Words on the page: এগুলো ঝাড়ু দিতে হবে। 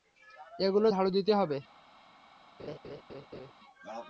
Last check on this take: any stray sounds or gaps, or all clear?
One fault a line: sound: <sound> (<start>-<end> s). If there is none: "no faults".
sound: laugh (2.6-3.5 s)